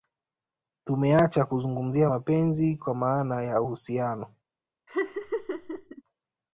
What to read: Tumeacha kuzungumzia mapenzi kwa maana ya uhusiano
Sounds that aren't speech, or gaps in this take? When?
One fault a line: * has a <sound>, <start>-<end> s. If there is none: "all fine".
* has a laugh, 4.9-6.0 s